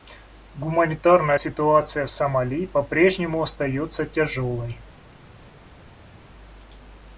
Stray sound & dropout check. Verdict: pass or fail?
pass